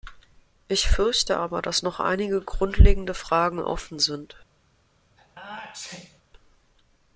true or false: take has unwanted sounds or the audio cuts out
true